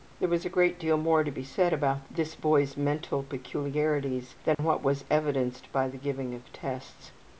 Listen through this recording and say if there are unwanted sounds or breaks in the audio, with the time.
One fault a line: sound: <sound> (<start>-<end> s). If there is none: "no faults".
sound: dropout (4.5-4.6 s)